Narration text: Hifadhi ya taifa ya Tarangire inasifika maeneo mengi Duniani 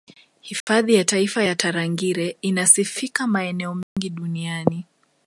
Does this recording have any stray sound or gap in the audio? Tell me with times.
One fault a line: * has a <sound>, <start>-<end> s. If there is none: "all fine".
* has a dropout, 0.6-0.7 s
* has a dropout, 3.8-4.0 s